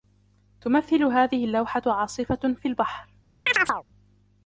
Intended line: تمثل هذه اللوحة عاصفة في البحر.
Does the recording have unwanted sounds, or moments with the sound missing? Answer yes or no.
yes